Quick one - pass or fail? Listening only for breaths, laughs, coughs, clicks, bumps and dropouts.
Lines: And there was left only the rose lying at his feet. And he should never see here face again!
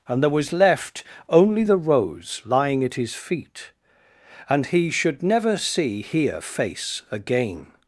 pass